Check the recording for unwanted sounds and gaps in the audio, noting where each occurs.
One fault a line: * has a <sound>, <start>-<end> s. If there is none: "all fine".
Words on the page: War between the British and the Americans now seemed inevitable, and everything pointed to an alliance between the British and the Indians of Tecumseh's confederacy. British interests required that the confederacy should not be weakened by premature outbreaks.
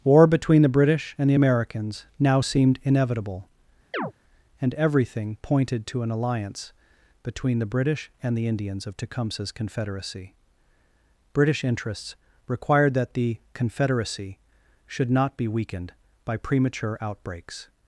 * has a chirp, 3.9-4.1 s